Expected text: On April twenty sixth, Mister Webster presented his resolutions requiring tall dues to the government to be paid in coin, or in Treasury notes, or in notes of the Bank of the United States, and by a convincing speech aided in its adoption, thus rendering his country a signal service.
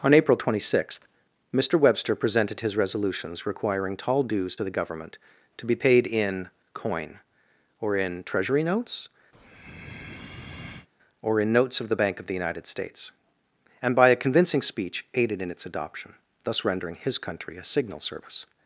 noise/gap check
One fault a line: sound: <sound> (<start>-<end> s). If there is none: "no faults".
sound: breath (9.3-10.9 s)